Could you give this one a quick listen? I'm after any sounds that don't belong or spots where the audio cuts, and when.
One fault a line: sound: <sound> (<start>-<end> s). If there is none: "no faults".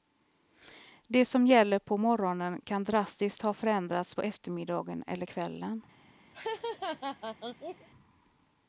sound: laugh (6.3-7.9 s)